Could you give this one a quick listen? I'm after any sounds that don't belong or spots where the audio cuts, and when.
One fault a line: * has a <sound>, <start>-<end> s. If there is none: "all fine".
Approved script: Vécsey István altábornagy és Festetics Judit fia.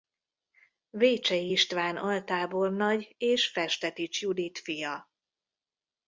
all fine